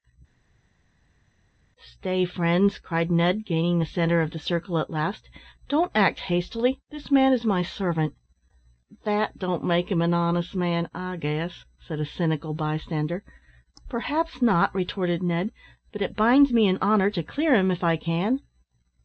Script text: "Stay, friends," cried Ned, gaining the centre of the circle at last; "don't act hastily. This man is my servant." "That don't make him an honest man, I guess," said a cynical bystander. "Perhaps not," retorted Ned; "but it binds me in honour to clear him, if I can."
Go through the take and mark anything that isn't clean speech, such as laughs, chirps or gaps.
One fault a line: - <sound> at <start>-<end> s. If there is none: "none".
none